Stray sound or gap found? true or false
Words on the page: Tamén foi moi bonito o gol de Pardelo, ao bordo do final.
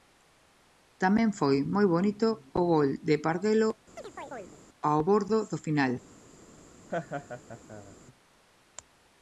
true